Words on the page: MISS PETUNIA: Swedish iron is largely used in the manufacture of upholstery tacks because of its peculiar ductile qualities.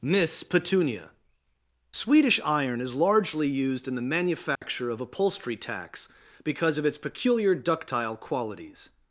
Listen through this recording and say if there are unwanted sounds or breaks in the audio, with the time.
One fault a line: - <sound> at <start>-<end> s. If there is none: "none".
- dropout at 4.6-4.6 s